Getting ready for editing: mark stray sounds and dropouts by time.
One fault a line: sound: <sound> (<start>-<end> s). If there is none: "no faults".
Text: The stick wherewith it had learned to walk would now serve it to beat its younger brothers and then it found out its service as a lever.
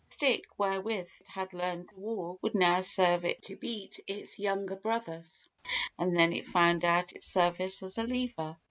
no faults